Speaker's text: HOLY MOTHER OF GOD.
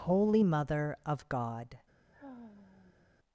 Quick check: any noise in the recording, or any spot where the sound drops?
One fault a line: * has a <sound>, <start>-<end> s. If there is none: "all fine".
* has a sigh, 2.1-3.1 s